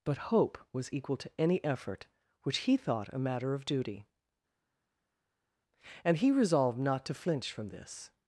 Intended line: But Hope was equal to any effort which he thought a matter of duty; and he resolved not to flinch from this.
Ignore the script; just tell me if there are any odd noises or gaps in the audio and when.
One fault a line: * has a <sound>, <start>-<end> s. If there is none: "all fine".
all fine